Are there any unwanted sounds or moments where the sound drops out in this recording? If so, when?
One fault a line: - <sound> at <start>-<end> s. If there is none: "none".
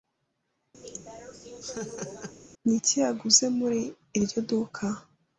- laugh at 0.8-2.4 s